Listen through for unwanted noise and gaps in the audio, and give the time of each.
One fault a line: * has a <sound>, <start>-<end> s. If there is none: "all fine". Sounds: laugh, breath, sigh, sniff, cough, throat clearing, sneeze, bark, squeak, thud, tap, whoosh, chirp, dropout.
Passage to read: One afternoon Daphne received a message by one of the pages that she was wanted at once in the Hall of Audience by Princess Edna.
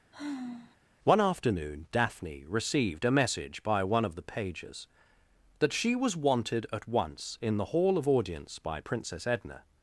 * has a sigh, 0.1-0.8 s